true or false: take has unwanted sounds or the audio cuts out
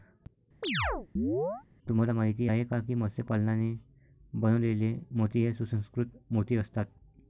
true